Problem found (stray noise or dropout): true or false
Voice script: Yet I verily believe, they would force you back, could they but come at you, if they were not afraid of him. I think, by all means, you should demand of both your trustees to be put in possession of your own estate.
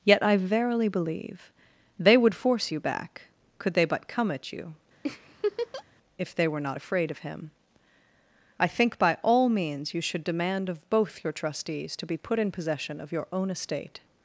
true